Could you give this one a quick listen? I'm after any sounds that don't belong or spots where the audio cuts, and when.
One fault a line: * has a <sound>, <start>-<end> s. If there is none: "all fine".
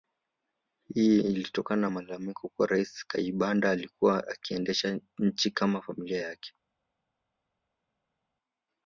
all fine